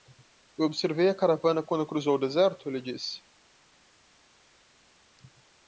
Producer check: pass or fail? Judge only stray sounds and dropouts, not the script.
pass